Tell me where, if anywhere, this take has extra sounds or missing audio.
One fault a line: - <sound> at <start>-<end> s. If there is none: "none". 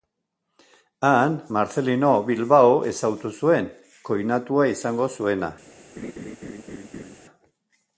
- laugh at 6.0-7.2 s